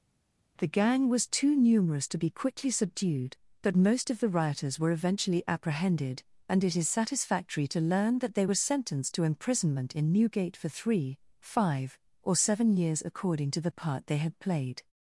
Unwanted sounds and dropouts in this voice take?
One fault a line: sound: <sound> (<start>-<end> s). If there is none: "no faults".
no faults